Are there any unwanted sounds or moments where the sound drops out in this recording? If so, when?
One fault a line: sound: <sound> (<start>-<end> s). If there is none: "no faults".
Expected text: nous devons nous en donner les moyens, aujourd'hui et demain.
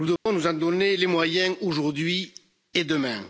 sound: dropout (0.2-0.3 s)